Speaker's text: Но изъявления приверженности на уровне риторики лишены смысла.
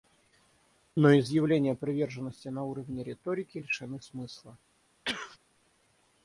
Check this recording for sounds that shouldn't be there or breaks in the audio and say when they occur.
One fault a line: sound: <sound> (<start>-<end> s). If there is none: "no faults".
sound: sneeze (5.0-5.4 s)